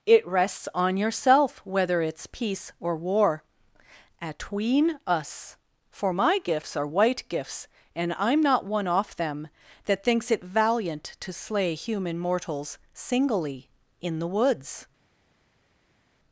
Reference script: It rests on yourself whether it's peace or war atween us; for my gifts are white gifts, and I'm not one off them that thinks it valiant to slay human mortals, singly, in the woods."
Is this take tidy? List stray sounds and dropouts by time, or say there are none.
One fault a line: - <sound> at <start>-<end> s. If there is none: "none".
none